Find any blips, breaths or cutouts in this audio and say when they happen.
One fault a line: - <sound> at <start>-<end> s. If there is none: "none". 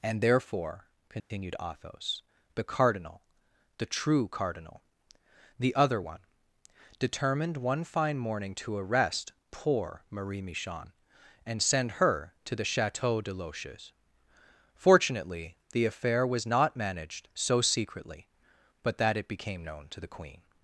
- dropout at 1.2-1.3 s